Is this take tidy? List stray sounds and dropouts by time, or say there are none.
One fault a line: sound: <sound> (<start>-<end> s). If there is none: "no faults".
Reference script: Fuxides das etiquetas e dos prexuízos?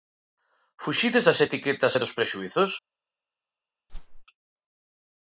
sound: whoosh (3.9-4.3 s)